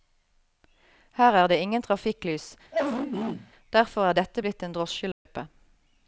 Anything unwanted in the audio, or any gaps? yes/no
yes